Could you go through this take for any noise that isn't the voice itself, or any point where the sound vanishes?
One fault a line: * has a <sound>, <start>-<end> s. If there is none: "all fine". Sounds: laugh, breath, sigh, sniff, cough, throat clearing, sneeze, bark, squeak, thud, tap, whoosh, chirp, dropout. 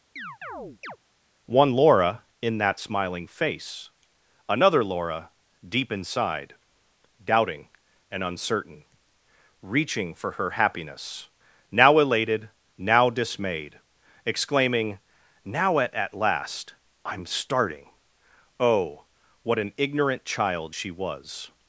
* has a chirp, 0.2-1.0 s